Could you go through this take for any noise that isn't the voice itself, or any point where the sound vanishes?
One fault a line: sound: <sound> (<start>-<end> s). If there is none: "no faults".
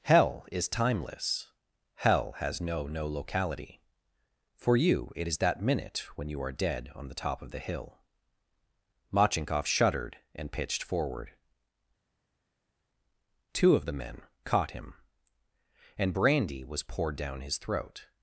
no faults